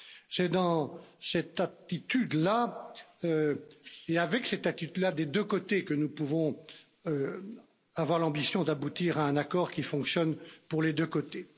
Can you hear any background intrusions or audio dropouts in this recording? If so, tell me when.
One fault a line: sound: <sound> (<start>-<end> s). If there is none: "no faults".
no faults